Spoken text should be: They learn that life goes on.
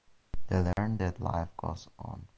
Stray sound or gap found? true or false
true